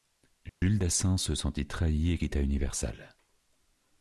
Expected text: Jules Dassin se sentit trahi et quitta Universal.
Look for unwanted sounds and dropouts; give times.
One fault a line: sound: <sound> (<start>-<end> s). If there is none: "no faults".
sound: dropout (0.5-0.6 s)